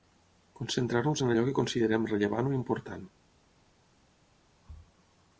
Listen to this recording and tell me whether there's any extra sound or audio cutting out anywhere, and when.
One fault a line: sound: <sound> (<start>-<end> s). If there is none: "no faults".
no faults